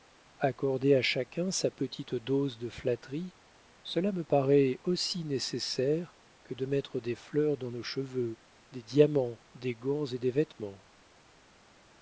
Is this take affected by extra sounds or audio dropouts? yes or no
no